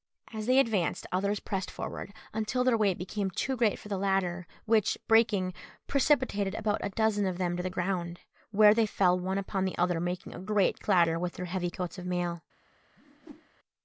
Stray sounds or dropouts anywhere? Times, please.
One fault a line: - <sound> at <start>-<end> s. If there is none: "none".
- whoosh at 13.0-13.5 s